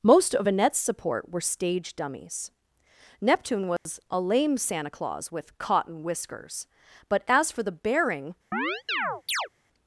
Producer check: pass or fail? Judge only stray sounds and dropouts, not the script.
fail